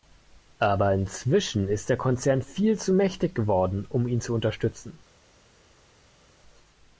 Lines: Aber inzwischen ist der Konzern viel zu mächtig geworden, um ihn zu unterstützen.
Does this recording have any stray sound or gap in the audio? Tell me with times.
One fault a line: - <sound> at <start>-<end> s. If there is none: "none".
none